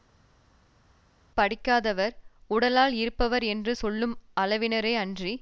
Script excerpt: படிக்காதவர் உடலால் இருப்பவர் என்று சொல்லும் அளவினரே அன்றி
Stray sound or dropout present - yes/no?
no